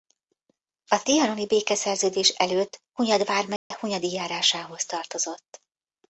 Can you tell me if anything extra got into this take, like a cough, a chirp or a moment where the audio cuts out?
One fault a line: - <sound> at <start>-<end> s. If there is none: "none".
- dropout at 3.6-3.7 s